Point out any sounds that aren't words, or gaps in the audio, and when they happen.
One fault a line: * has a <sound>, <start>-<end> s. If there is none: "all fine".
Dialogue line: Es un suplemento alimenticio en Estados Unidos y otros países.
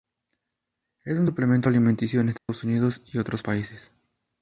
* has a dropout, 2.4-2.5 s